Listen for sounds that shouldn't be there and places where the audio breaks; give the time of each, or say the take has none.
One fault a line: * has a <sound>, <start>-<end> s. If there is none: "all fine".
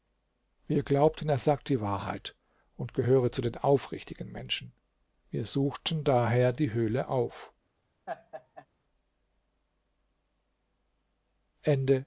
* has a laugh, 8.1-8.7 s